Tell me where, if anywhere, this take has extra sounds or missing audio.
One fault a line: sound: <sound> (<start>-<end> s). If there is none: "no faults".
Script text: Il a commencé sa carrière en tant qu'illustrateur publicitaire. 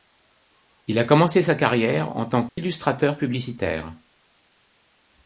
sound: dropout (2.5-2.6 s)